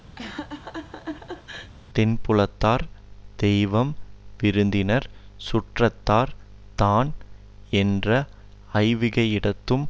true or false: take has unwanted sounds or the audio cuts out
true